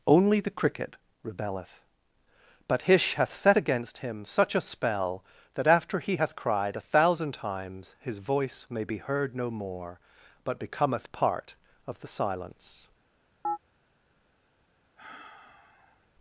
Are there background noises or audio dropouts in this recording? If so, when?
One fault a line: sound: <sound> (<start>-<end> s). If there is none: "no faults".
sound: chirp (13.4-13.6 s)
sound: sigh (15.0-16.1 s)